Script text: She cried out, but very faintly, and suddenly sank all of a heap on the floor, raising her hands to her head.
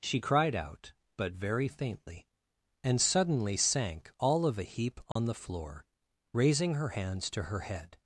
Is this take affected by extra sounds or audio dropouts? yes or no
yes